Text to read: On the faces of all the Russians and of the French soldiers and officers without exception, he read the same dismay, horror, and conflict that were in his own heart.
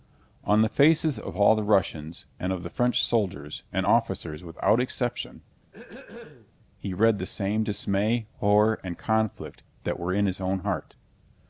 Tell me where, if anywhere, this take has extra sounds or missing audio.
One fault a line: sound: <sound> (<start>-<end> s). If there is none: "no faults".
sound: throat clearing (5.6-6.5 s)